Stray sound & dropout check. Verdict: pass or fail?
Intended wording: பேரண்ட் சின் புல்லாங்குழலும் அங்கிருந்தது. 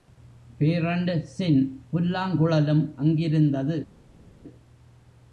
pass